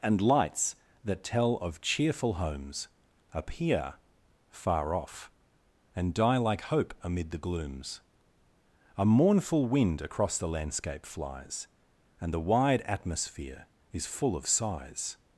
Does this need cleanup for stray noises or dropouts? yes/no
no